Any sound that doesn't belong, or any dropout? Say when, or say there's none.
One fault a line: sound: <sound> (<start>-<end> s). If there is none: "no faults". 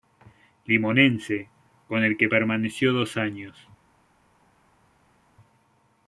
no faults